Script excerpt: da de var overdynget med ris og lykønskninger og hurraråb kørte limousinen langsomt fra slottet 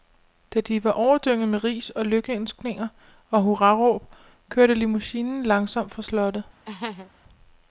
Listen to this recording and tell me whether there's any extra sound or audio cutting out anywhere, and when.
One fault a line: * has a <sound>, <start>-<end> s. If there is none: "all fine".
* has a laugh, 6.7-7.1 s